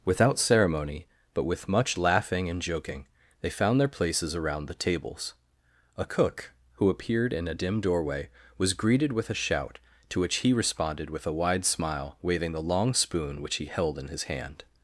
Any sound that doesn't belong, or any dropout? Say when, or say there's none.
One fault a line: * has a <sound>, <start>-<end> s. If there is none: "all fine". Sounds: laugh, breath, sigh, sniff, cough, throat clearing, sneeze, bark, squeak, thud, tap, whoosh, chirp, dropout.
all fine